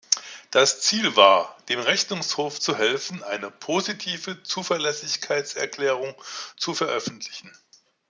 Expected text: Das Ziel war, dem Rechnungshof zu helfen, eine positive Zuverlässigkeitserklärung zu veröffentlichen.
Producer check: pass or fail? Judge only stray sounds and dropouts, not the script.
pass